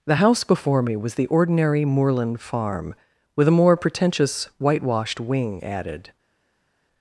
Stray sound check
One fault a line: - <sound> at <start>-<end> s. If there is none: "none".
none